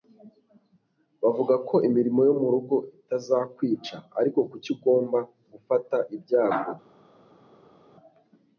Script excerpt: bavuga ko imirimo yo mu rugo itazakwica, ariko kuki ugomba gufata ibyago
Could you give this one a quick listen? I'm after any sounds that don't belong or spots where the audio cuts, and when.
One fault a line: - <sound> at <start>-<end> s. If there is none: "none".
none